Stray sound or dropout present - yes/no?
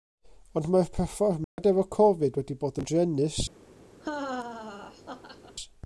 yes